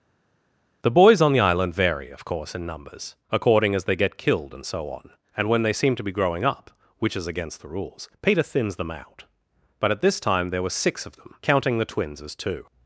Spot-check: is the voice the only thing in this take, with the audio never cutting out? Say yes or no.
yes